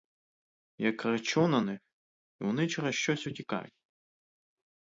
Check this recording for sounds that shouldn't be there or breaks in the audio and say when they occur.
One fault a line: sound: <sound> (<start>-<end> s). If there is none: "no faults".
no faults